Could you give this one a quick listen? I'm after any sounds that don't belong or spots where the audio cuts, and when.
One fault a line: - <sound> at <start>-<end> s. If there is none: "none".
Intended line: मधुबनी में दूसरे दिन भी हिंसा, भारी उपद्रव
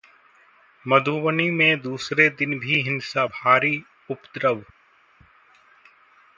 none